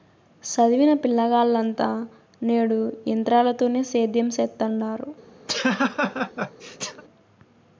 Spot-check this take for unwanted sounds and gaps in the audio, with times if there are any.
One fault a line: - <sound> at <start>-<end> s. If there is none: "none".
- laugh at 5.5-7.0 s